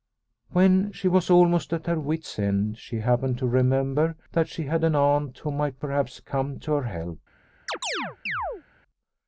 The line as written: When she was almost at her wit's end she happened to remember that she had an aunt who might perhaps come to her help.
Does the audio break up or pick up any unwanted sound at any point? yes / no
yes